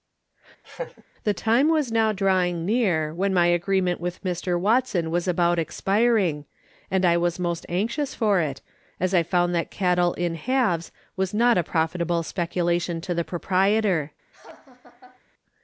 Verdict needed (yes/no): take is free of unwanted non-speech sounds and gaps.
no